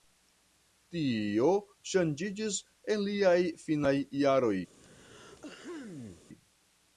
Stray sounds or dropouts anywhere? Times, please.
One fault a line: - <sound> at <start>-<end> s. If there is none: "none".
- throat clearing at 4.7-6.3 s